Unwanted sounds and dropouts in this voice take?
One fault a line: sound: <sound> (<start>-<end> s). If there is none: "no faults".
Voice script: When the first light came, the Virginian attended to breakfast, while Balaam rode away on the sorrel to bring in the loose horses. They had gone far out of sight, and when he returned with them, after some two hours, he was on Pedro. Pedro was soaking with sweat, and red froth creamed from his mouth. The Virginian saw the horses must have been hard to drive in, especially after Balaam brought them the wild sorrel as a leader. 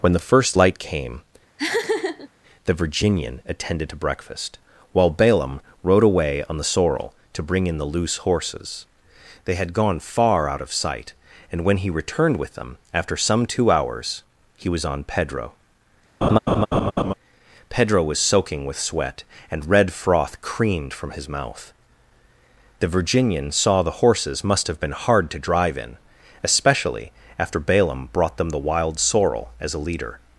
sound: laugh (1.6-2.3 s)
sound: laugh (16.2-17.1 s)